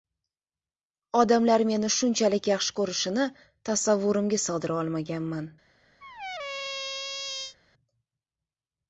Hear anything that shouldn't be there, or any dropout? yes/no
yes